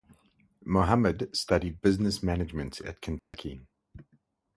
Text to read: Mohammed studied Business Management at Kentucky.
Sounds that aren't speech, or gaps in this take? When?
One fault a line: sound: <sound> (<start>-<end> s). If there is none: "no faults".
sound: dropout (3.2-3.3 s)